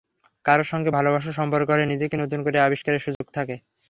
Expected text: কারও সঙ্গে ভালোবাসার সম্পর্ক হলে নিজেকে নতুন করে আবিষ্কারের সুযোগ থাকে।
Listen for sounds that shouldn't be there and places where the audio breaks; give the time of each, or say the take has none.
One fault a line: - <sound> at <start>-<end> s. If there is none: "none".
- dropout at 3.1-3.2 s